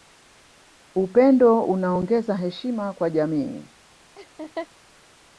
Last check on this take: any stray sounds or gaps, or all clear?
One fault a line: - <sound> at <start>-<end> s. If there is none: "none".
- laugh at 4.2-4.7 s